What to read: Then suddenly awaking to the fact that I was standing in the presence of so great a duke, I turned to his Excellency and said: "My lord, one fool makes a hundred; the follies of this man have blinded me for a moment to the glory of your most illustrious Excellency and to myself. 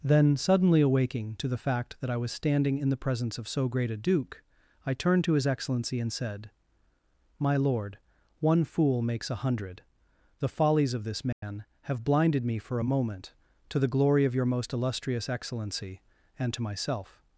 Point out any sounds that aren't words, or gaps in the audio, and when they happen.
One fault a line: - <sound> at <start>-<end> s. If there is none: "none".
- dropout at 11.3-11.4 s